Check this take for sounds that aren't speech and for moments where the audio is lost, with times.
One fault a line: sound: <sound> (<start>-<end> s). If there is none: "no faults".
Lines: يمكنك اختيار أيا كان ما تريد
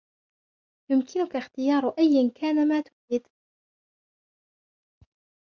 no faults